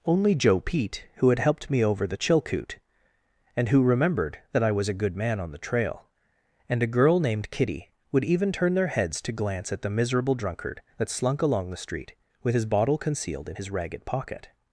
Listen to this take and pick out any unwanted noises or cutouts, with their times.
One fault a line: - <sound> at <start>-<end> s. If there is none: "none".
none